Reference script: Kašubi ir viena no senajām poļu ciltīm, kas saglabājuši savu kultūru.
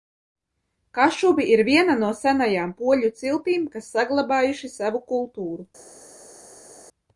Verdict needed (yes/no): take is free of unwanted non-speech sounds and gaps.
yes